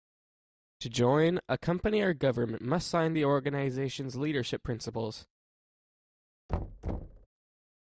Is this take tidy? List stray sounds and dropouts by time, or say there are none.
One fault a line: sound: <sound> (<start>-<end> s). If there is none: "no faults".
sound: thud (6.5-7.3 s)